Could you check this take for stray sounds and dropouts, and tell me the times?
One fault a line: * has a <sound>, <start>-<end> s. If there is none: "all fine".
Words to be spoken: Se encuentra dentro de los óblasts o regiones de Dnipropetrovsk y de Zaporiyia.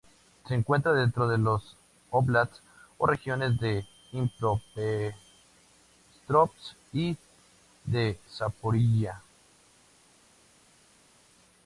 all fine